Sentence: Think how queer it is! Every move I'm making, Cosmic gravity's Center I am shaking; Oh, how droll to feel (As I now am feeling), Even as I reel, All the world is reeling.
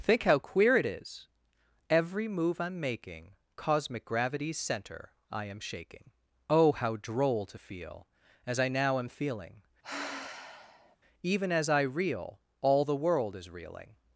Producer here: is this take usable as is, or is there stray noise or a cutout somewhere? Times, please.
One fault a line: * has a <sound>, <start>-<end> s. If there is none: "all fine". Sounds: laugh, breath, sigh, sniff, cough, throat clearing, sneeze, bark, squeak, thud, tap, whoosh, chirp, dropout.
* has a sigh, 9.8-11.0 s